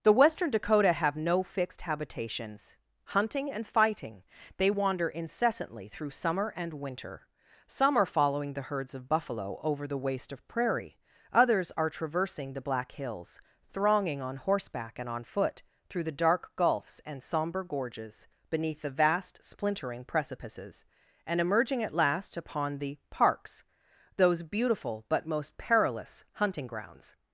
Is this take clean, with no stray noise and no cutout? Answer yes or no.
yes